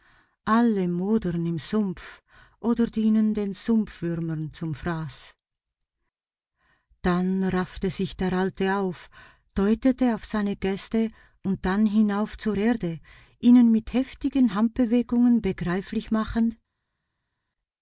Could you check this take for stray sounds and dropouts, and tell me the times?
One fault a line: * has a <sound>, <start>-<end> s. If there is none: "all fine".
all fine